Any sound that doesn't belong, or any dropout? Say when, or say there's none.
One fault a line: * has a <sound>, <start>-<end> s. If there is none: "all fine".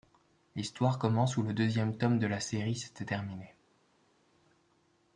all fine